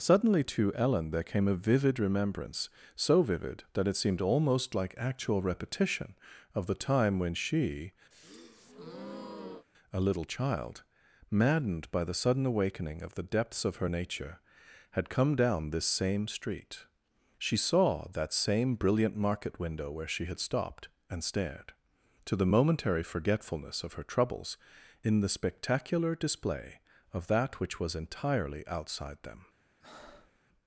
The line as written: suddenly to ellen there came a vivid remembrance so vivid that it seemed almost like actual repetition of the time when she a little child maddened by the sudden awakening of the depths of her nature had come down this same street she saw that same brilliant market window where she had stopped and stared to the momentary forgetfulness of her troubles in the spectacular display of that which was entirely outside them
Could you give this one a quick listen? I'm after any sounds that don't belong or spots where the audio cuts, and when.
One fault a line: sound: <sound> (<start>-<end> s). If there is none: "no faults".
sound: breath (8.1-9.7 s)
sound: breath (29.8-30.4 s)